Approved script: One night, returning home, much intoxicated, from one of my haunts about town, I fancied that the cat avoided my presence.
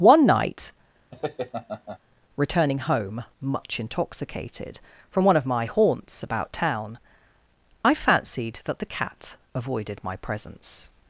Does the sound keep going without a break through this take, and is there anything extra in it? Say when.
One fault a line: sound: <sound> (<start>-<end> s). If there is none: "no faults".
sound: laugh (1.1-2.0 s)